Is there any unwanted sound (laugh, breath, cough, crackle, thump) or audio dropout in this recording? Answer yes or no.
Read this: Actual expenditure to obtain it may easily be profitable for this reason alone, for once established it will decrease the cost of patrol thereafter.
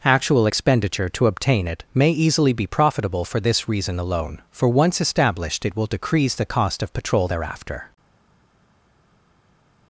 no